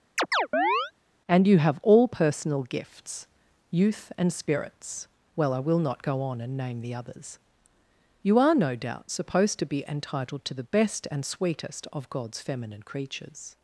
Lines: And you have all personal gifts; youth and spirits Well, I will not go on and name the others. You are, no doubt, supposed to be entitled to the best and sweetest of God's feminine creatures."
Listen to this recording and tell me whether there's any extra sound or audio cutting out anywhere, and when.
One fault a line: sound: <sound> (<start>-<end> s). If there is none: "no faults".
sound: chirp (0.2-0.9 s)